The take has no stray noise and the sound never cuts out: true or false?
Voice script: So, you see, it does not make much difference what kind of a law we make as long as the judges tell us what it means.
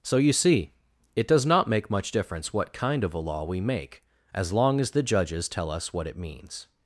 true